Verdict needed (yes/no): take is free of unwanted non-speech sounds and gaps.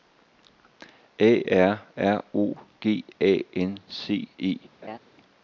no